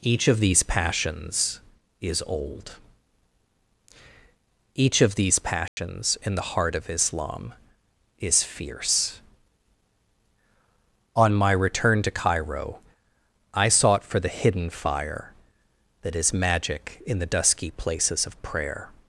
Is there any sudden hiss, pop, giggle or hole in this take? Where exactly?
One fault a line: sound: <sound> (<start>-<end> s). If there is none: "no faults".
sound: dropout (5.7-5.8 s)